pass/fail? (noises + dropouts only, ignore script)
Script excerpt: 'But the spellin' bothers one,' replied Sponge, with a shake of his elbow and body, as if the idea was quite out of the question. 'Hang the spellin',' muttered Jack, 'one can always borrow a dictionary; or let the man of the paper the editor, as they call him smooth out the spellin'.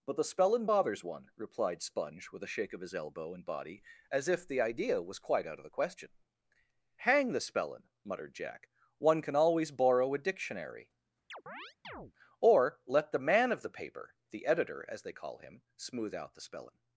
fail